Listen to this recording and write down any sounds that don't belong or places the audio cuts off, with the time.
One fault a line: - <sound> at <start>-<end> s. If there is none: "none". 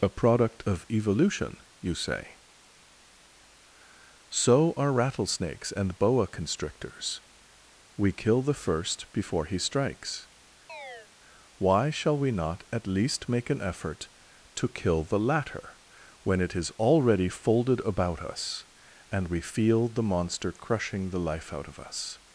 - chirp at 10.7-11.1 s